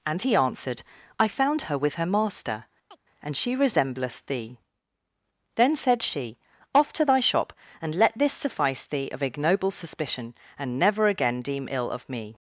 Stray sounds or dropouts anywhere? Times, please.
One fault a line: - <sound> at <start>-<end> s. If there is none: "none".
- chirp at 2.9-3.0 s